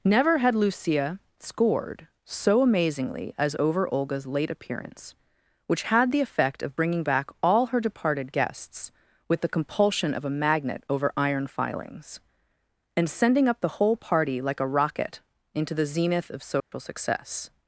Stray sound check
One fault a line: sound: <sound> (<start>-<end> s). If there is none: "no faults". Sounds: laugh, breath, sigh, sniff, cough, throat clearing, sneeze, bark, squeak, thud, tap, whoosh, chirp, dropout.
sound: dropout (16.6-16.7 s)